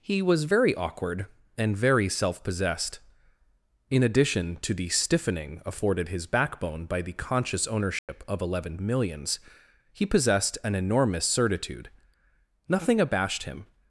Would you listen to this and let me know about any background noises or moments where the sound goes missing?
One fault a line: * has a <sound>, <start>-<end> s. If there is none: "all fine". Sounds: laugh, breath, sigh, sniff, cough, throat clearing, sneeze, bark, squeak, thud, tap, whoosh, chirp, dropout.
* has a dropout, 8.0-8.1 s